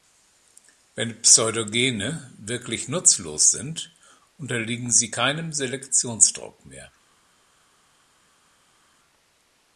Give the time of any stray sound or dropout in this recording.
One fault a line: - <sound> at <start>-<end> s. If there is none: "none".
none